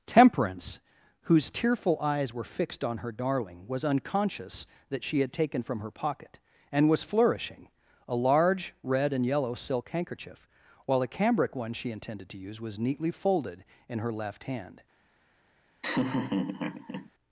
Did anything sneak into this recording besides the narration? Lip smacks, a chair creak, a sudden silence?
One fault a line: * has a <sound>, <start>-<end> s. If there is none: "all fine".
* has a laugh, 15.8-17.1 s